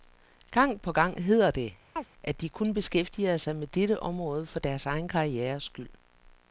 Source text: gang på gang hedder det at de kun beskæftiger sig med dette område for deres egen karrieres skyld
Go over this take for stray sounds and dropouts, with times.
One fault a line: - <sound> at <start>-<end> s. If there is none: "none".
- chirp at 2.0-2.1 s